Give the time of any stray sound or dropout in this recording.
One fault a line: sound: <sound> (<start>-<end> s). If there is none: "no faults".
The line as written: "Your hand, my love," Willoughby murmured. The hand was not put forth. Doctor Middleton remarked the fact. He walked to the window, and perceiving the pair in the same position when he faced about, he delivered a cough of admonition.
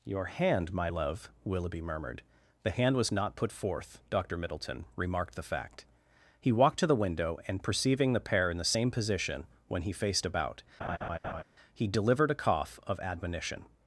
sound: laugh (10.8-11.4 s)